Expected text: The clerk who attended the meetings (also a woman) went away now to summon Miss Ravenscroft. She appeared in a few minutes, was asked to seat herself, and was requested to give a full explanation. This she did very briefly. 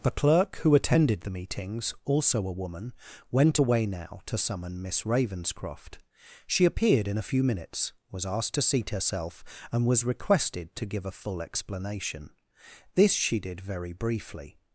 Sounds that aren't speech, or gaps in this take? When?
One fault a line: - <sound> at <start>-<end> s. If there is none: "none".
none